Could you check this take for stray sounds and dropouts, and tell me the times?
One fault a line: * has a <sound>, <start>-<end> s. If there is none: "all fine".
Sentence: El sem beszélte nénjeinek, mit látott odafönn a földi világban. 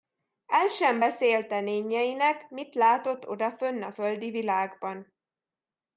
all fine